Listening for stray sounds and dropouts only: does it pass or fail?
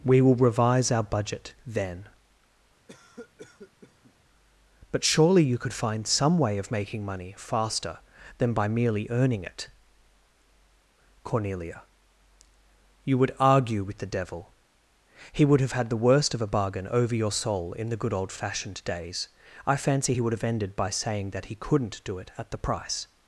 fail